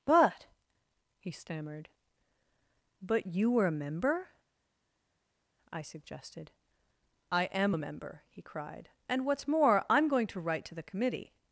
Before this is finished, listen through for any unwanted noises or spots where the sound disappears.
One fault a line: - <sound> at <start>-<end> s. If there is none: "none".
none